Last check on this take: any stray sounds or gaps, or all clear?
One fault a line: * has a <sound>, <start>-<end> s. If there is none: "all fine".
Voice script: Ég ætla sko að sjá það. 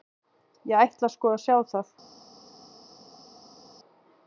all fine